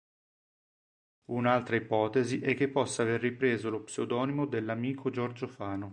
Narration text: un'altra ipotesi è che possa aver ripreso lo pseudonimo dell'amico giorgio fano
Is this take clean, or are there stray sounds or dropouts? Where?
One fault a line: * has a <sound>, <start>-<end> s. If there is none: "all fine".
all fine